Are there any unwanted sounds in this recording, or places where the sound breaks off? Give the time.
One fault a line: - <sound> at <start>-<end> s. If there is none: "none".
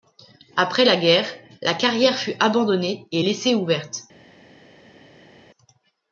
none